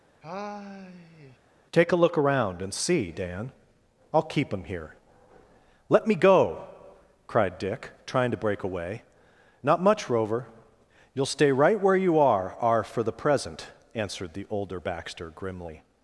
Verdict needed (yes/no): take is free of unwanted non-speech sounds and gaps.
no